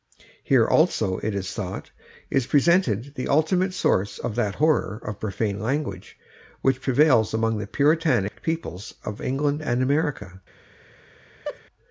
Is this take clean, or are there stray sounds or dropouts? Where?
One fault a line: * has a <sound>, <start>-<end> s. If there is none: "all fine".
* has a dropout, 8.3-8.3 s
* has a laugh, 11.4-11.6 s